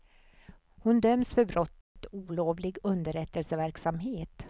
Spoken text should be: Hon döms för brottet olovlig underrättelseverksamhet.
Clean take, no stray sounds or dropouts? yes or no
no